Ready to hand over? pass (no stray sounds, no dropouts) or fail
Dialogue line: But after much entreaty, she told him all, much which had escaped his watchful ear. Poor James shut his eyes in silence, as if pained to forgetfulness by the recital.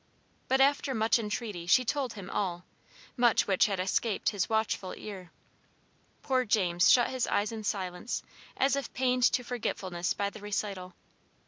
pass